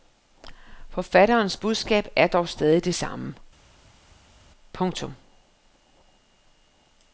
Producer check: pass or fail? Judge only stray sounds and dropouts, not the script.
pass